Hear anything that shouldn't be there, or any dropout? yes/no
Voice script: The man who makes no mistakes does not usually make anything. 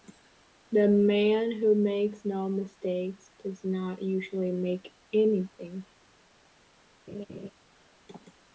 yes